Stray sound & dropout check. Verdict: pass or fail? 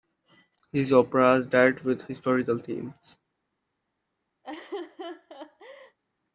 fail